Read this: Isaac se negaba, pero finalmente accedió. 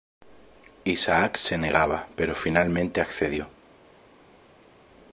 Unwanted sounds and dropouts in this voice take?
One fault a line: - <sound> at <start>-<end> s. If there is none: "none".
none